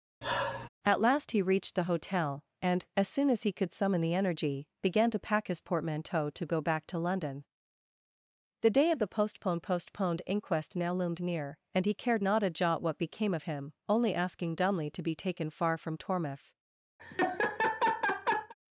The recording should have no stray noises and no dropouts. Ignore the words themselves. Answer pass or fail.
fail